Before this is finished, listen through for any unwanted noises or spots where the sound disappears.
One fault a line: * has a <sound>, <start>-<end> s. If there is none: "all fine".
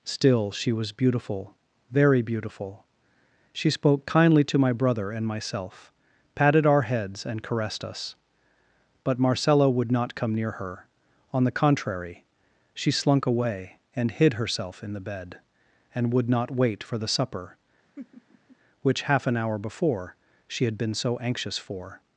* has a laugh, 18.0-18.6 s